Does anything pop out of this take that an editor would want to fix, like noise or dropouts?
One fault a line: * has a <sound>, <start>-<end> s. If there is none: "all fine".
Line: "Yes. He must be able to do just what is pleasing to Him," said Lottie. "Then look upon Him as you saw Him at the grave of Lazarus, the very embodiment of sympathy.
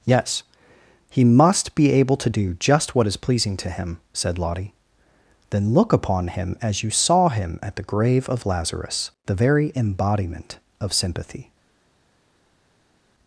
all fine